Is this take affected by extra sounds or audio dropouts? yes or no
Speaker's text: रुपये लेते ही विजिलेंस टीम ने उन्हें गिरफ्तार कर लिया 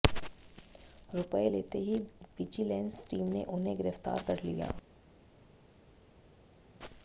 no